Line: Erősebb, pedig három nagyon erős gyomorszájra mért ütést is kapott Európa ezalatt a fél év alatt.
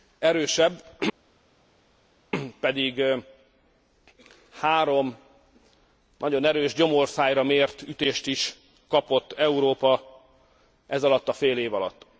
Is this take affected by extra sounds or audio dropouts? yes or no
no